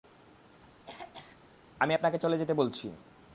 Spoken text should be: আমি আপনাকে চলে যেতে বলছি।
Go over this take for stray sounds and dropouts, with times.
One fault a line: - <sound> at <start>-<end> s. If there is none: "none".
- throat clearing at 0.9-1.4 s